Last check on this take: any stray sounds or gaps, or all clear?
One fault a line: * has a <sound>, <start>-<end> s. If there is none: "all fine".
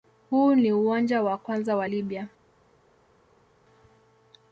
all fine